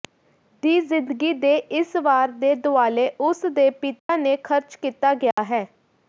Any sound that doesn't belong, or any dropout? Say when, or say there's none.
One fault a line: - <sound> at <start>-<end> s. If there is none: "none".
- dropout at 4.0-4.1 s
- dropout at 5.3-5.4 s